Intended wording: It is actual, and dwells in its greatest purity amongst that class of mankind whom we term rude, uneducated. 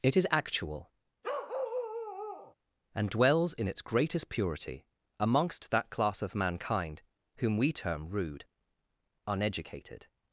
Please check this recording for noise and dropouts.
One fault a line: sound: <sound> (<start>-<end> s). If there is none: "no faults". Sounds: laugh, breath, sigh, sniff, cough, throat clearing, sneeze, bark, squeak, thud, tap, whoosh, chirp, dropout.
sound: bark (1.2-2.5 s)